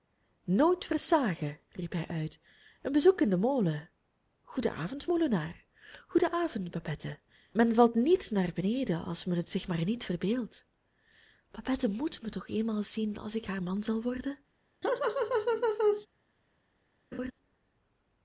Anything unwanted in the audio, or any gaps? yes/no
yes